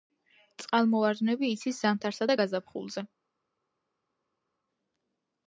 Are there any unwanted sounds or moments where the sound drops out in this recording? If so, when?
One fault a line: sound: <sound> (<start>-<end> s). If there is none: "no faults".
no faults